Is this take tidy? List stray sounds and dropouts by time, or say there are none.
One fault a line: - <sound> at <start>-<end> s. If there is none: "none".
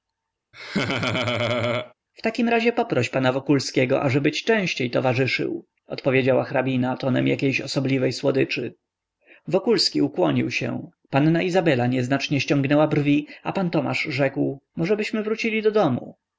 - laugh at 0.5-1.9 s